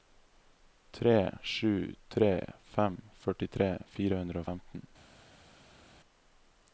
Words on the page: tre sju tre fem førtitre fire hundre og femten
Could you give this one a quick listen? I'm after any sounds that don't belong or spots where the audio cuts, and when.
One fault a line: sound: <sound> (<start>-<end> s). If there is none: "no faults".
no faults